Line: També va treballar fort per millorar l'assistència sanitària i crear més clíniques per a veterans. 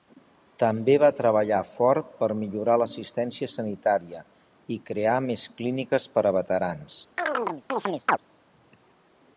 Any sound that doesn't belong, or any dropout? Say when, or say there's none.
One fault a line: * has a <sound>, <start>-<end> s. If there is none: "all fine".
* has a chirp, 7.2-8.2 s